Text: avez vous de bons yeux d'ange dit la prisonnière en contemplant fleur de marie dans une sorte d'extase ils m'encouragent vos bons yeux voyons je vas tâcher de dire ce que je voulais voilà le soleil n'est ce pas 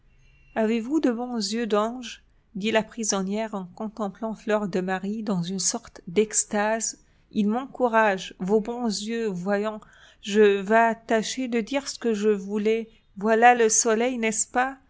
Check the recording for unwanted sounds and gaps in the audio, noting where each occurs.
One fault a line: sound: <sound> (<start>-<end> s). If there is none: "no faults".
no faults